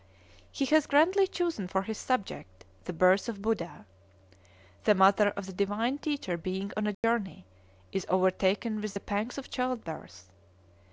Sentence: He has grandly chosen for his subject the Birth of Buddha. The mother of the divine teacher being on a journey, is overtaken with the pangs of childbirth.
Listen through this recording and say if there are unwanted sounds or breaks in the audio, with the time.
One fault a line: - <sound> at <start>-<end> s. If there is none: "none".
- dropout at 6.9-7.0 s